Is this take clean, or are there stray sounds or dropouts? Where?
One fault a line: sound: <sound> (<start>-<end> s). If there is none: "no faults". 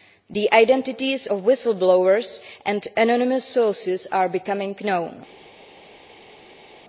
no faults